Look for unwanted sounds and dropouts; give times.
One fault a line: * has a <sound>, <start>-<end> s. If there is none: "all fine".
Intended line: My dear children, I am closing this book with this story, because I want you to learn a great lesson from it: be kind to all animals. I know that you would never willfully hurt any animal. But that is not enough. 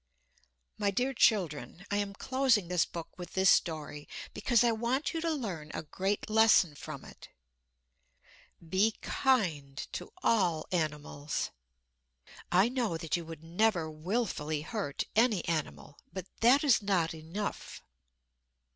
all fine